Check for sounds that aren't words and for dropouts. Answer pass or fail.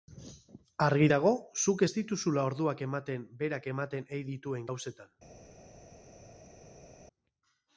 pass